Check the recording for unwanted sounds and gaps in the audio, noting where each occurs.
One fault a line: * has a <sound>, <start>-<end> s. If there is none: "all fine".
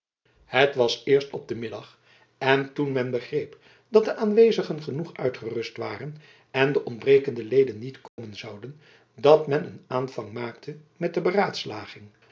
* has a dropout, 8.1-8.2 s